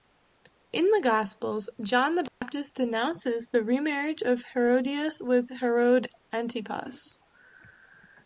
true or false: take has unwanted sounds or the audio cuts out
true